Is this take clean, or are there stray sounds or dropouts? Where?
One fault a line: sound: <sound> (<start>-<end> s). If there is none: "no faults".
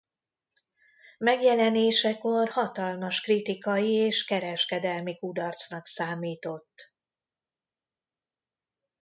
no faults